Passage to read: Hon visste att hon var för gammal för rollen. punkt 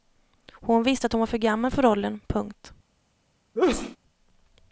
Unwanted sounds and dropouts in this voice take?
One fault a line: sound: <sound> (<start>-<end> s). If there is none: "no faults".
sound: sneeze (3.5-4.0 s)